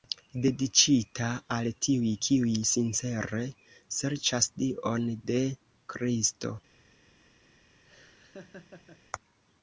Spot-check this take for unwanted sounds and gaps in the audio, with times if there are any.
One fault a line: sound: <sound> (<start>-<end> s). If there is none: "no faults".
sound: laugh (7.8-9.0 s)